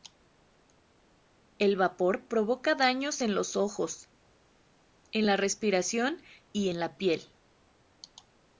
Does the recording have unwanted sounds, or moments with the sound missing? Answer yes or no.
no